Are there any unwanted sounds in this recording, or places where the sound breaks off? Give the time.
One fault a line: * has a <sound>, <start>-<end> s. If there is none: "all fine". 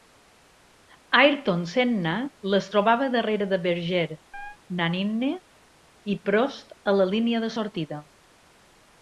* has a chirp, 4.3-4.6 s